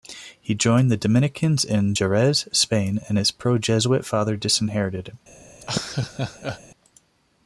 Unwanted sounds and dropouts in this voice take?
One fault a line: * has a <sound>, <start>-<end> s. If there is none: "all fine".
* has a laugh, 5.6-6.6 s